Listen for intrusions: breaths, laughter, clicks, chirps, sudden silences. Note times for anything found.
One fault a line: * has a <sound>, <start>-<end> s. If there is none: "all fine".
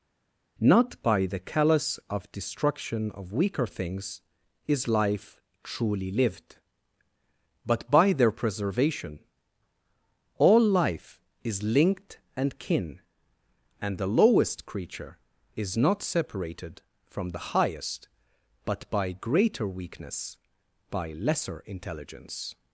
all fine